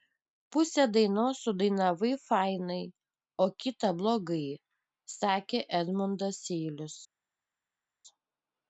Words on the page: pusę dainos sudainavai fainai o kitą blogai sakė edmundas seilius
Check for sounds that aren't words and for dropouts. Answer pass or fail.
pass